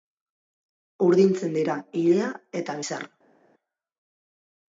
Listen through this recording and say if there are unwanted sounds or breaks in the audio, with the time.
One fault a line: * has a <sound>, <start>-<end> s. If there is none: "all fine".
all fine